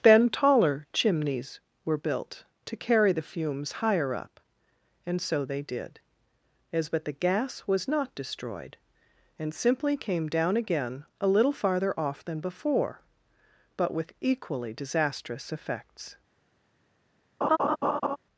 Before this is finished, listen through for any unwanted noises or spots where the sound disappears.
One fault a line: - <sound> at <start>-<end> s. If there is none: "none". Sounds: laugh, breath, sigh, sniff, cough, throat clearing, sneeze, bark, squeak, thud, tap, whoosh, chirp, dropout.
- laugh at 17.4-18.2 s